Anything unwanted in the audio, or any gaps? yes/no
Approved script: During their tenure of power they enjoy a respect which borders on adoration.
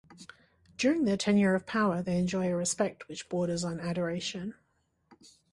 no